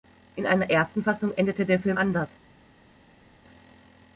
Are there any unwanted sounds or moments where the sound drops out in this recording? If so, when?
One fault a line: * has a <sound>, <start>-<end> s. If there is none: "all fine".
all fine